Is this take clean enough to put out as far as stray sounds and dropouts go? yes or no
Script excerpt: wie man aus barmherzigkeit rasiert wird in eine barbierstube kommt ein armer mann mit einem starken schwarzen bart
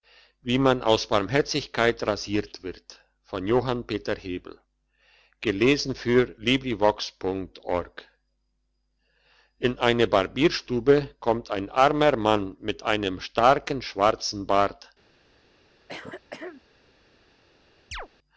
no